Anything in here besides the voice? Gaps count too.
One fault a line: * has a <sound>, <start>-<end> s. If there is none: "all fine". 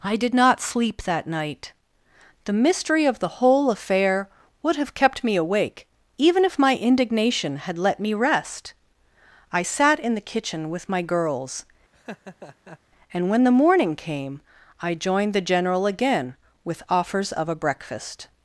* has a laugh, 11.9-12.8 s